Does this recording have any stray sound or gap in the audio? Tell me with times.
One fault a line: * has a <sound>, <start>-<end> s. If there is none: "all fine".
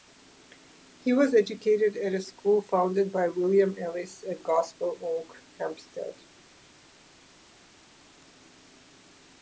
all fine